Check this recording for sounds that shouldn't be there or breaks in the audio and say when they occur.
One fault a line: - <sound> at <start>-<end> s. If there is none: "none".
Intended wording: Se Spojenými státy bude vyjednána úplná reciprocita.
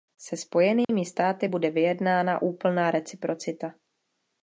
- dropout at 0.8-0.9 s